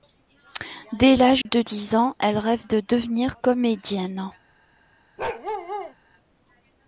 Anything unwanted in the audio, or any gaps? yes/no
yes